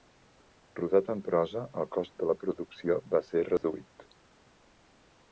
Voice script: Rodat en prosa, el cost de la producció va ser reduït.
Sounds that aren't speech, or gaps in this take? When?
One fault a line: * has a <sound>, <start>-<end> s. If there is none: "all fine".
* has a dropout, 3.6-3.6 s